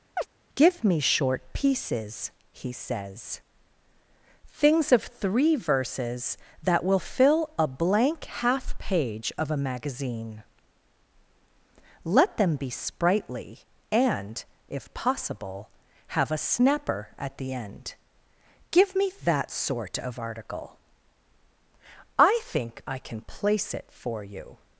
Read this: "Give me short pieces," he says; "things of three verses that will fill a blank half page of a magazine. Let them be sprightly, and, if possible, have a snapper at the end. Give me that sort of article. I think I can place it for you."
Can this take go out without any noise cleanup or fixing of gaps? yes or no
no